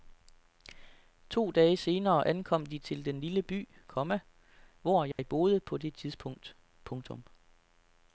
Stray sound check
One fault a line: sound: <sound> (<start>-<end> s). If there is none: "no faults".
sound: dropout (5.1-5.2 s)